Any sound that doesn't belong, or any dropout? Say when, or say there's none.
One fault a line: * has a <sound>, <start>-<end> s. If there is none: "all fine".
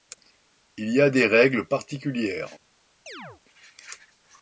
* has a chirp, 3.1-3.4 s